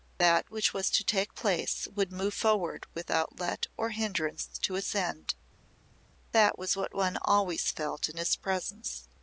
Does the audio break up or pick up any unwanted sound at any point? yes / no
no